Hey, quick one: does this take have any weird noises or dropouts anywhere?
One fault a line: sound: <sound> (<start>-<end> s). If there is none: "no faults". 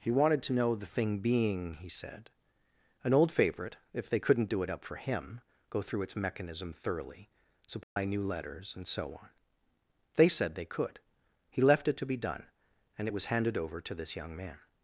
sound: dropout (7.8-8.0 s)